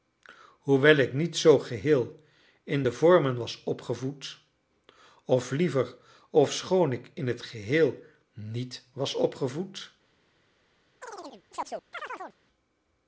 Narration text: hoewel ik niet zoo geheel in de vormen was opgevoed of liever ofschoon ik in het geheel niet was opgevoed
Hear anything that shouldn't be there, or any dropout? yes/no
yes